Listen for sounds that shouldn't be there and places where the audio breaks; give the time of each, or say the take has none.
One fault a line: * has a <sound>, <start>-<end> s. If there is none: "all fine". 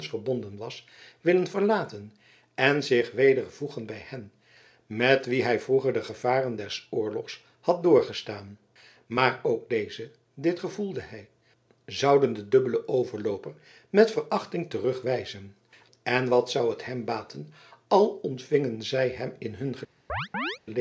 * has a chirp, 20.1-20.6 s